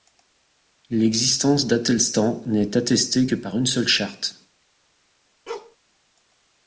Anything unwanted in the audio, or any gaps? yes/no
yes